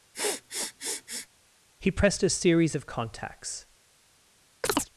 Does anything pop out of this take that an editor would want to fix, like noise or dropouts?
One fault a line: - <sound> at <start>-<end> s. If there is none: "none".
- sniff at 0.1-1.3 s
- chirp at 4.6-4.9 s